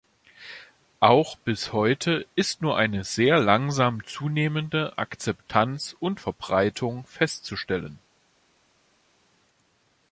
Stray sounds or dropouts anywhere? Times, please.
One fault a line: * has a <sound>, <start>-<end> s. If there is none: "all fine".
all fine